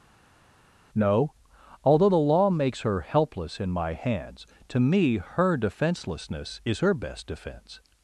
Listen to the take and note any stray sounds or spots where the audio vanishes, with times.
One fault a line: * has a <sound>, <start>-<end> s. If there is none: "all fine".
all fine